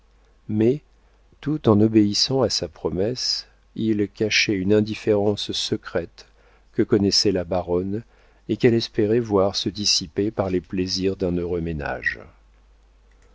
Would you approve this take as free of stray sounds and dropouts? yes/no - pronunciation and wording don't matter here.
yes